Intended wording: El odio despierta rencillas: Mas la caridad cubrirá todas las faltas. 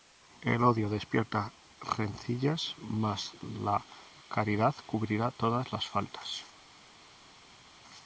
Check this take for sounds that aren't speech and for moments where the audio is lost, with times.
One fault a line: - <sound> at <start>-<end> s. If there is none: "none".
none